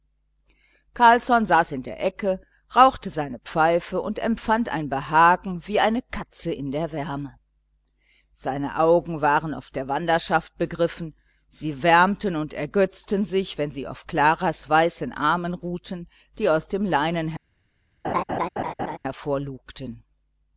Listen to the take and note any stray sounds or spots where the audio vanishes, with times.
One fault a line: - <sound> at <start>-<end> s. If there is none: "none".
- laugh at 18.0-19.0 s